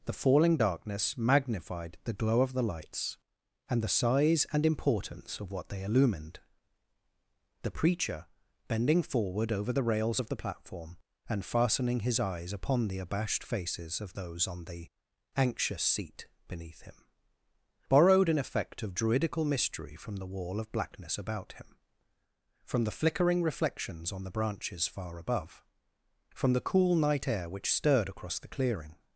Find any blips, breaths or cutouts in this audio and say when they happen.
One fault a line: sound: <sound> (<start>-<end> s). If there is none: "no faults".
no faults